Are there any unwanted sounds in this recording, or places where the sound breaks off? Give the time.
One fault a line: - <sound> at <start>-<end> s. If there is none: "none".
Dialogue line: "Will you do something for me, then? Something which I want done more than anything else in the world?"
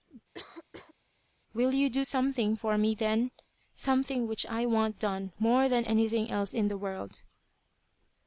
- cough at 0.3-0.9 s